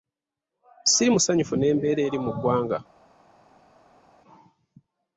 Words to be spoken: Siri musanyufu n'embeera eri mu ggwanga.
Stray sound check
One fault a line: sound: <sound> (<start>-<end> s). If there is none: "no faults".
no faults